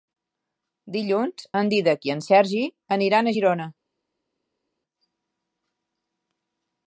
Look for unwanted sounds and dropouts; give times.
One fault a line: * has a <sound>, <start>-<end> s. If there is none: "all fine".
all fine